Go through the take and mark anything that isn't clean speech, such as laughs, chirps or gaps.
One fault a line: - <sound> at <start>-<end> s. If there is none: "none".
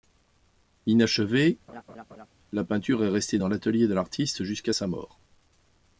- laugh at 1.7-2.3 s